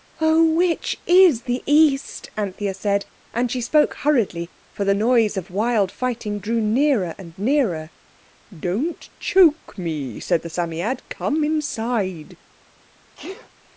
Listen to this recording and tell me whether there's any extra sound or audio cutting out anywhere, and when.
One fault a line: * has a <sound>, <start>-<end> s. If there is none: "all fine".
* has a sneeze, 13.2-13.5 s